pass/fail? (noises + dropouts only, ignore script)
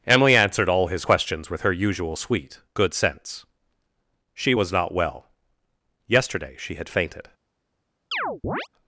fail